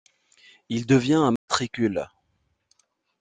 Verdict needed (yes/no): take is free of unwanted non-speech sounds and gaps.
no